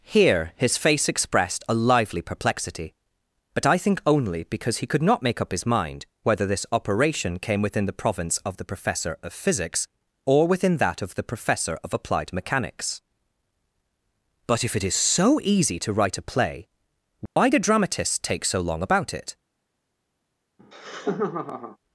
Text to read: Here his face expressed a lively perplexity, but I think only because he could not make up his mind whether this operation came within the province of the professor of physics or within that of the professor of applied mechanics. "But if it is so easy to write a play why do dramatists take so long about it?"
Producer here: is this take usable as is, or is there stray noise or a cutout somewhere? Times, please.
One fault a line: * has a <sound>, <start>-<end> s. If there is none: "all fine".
* has a dropout, 17.3-17.4 s
* has a laugh, 20.6-21.8 s